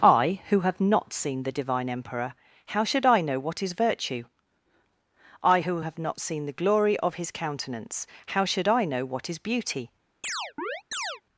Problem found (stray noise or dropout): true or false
true